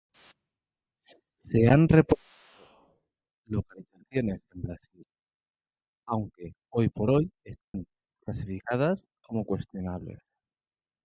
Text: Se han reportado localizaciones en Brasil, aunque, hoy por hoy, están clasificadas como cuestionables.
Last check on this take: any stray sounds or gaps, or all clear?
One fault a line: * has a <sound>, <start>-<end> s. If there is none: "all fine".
* has a dropout, 7.6-7.7 s